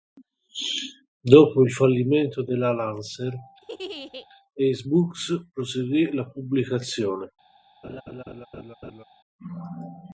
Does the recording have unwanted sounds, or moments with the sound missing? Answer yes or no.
yes